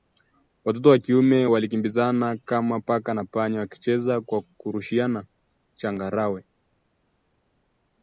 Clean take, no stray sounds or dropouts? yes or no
yes